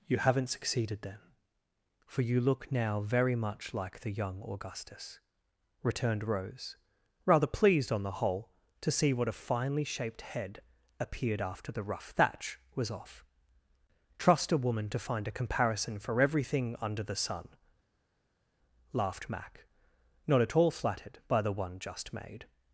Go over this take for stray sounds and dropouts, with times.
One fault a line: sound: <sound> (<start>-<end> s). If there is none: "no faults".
no faults